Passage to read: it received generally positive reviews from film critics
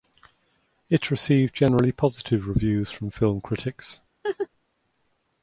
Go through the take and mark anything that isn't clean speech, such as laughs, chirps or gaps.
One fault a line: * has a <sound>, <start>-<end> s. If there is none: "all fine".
* has a laugh, 4.2-4.5 s